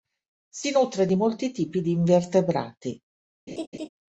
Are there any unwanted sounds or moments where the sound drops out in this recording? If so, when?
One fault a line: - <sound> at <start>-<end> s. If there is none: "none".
- laugh at 3.5-3.9 s